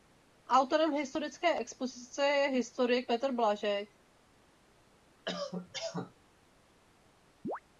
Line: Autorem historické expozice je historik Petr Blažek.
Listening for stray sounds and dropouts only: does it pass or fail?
fail